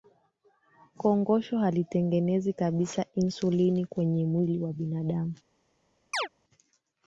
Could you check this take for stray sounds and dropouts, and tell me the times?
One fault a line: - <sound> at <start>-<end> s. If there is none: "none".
- chirp at 6.1-6.3 s